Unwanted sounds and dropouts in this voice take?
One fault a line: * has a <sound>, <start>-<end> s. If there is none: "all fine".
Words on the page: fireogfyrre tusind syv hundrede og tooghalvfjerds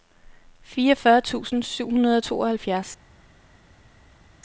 all fine